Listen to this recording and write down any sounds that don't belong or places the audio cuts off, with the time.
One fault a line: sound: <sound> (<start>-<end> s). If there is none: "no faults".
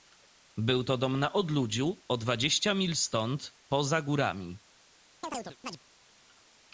sound: chirp (5.2-5.8 s)